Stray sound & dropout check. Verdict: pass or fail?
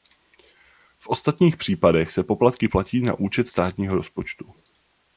pass